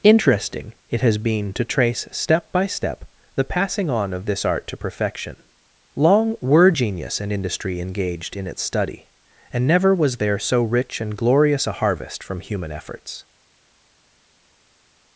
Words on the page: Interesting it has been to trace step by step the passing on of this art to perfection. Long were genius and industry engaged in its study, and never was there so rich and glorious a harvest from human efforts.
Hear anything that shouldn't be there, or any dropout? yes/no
no